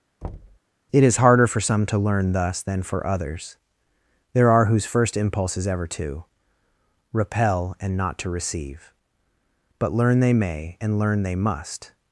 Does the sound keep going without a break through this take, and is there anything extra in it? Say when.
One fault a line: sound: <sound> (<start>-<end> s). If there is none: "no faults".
sound: thud (0.2-0.6 s)